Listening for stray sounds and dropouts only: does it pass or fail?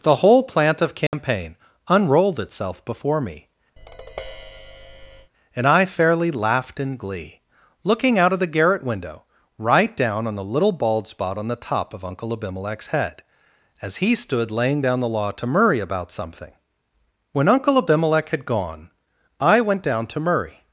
fail